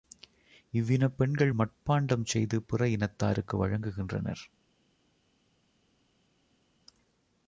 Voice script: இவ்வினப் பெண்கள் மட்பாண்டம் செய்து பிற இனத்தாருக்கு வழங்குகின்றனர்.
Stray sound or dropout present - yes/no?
no